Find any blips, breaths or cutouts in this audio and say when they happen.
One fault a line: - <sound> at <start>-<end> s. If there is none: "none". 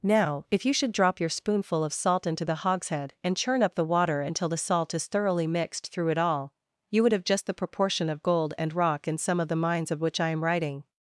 none